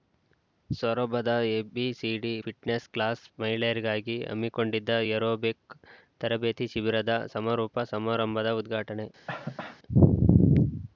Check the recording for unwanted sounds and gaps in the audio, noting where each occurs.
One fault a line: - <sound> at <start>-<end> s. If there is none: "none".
- cough at 9.3-9.8 s